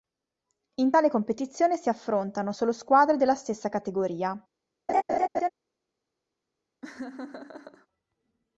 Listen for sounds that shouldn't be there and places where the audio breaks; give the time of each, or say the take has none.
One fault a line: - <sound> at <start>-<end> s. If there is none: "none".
- laugh at 4.9-5.5 s
- laugh at 6.8-7.9 s